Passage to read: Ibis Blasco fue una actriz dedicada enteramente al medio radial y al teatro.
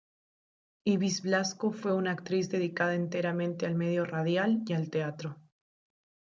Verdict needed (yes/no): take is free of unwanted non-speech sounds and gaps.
yes